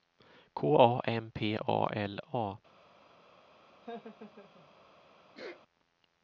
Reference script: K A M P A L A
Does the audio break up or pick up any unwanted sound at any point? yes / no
yes